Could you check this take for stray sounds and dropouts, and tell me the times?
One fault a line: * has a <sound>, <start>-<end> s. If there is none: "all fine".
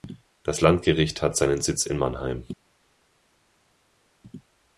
all fine